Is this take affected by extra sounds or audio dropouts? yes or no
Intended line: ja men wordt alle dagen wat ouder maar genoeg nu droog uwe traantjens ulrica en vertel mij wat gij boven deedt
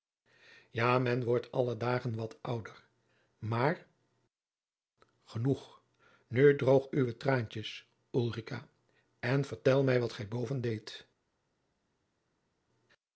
no